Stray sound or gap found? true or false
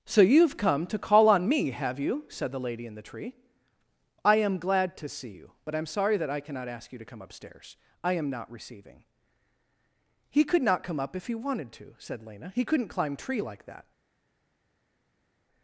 false